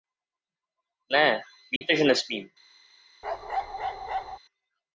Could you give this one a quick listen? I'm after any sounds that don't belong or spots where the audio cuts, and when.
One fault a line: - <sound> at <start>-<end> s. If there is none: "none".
- dropout at 1.8-1.8 s
- bark at 3.2-4.4 s